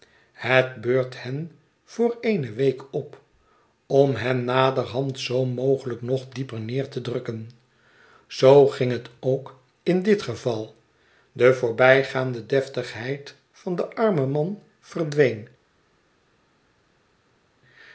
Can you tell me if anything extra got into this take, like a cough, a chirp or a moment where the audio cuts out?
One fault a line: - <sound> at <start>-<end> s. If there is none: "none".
none